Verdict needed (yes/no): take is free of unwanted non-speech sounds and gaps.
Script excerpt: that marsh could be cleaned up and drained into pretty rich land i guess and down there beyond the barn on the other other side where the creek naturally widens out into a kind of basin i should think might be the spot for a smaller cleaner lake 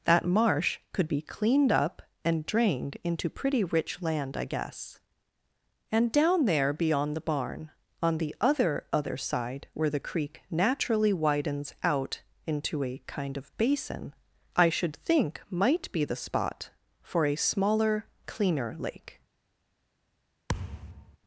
no